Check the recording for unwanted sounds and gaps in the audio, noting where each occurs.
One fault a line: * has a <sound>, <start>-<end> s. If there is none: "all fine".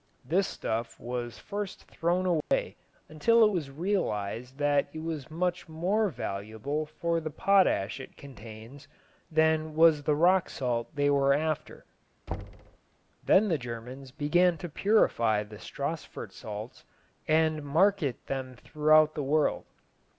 * has a dropout, 2.4-2.5 s
* has a thud, 12.3-12.8 s